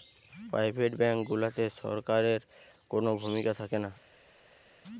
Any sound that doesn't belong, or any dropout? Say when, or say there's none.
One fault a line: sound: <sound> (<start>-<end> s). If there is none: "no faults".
no faults